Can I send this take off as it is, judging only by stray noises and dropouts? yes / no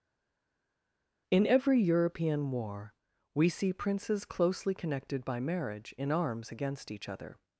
yes